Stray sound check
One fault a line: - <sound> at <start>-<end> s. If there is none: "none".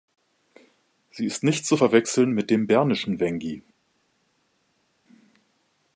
none